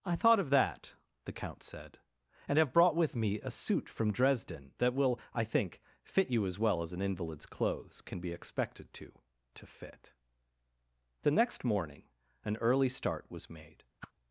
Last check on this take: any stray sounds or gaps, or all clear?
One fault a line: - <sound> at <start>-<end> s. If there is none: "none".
- whoosh at 14.0-14.1 s